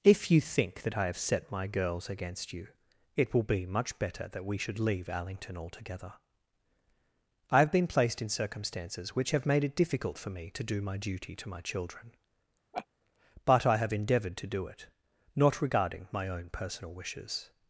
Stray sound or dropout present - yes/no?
yes